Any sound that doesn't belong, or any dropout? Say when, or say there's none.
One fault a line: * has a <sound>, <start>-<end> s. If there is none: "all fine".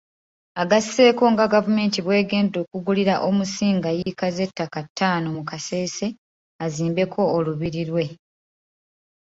* has a dropout, 4.0-4.1 s